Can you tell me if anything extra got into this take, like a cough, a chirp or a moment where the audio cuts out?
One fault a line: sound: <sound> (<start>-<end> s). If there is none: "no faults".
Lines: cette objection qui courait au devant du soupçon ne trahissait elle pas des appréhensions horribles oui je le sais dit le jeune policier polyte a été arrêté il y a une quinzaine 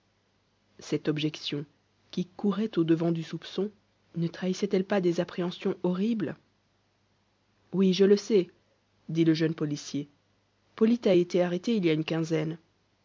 no faults